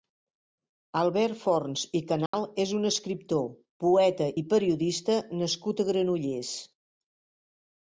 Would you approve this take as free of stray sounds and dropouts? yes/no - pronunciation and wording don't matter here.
no